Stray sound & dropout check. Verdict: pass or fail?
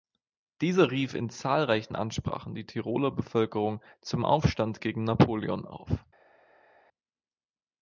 pass